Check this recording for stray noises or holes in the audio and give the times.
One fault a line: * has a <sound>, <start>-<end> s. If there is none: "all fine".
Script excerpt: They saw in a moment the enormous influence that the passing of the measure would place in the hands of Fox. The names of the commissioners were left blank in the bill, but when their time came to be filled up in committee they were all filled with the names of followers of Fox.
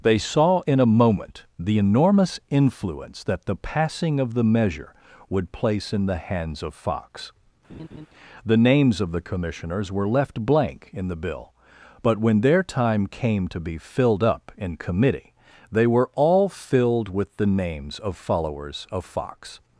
* has a laugh, 7.7-8.1 s